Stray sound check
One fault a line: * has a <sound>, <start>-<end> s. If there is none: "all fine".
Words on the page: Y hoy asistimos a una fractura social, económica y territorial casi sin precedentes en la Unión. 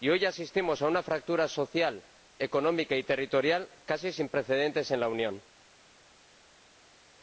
all fine